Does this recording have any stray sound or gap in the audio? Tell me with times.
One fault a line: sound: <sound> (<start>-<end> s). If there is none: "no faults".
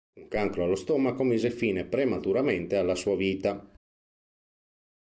no faults